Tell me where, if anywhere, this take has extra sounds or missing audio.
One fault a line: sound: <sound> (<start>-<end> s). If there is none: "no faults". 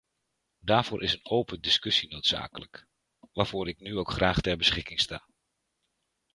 no faults